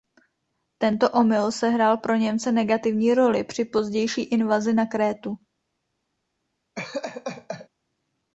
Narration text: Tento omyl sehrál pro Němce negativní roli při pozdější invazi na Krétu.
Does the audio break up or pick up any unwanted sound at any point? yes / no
yes